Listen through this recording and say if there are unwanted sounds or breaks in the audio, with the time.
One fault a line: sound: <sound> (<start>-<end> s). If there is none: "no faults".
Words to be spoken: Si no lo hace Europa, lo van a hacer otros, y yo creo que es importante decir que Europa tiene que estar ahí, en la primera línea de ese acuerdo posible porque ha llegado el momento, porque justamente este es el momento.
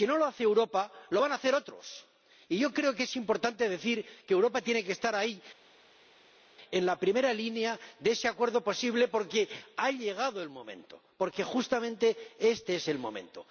no faults